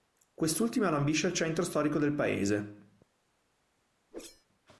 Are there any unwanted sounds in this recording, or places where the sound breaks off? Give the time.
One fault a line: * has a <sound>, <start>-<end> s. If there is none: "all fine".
* has a whoosh, 4.1-4.5 s